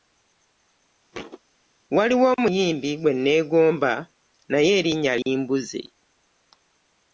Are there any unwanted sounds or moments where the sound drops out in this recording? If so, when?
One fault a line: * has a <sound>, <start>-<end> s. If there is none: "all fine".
* has a thud, 1.1-1.4 s